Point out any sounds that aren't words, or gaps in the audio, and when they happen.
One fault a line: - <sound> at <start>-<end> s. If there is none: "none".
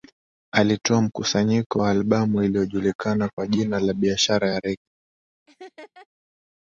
- laugh at 5.5-6.1 s